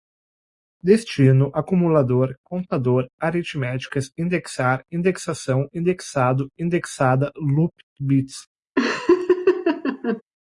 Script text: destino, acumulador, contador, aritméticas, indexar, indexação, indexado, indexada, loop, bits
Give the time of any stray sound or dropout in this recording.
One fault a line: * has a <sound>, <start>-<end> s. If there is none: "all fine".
* has a laugh, 8.8-10.2 s